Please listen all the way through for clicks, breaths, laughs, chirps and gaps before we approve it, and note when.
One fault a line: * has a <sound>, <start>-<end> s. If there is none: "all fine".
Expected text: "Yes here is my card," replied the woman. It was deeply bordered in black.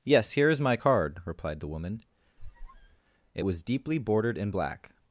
* has a squeak, 2.4-3.0 s